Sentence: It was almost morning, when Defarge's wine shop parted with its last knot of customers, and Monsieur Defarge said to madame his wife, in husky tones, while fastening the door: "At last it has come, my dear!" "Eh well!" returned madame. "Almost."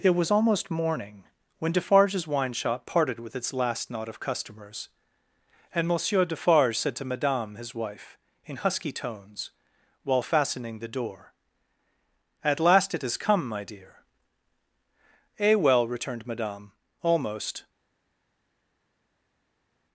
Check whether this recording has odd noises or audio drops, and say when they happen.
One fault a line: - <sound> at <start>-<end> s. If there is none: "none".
none